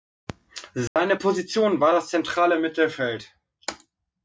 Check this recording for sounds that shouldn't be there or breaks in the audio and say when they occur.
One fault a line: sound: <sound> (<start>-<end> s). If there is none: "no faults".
sound: dropout (0.9-1.0 s)